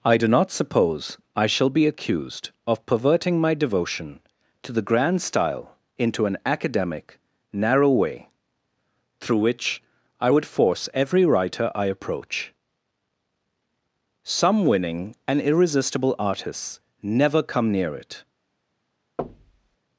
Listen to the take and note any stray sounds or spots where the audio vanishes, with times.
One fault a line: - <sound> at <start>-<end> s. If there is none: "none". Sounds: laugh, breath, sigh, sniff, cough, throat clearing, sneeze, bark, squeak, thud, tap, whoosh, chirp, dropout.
- thud at 19.2-19.8 s